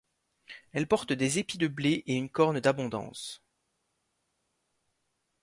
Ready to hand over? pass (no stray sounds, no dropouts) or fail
pass